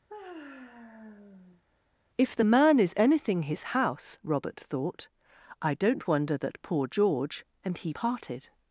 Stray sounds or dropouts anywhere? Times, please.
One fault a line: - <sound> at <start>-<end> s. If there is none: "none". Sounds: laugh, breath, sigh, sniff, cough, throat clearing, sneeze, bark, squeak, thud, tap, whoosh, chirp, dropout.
- sigh at 0.1-1.6 s